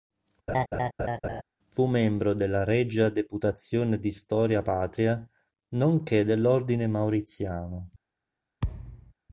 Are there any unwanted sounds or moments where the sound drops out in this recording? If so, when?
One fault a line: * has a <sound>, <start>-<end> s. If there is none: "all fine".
* has a laugh, 0.5-1.4 s
* has a thud, 8.6-9.1 s